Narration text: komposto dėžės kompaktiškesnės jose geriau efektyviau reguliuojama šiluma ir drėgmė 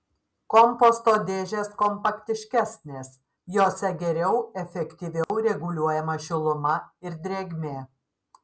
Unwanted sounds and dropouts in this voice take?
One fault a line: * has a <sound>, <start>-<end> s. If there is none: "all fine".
* has a dropout, 5.2-5.3 s